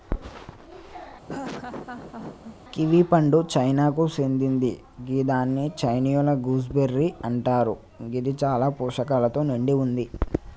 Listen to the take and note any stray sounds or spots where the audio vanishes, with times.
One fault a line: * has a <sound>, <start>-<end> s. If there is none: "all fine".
* has a laugh, 1.3-2.6 s